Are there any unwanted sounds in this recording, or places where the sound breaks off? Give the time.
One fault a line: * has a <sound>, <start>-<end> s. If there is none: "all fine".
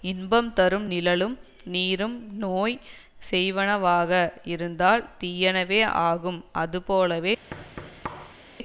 * has a thud, 7.5-8.4 s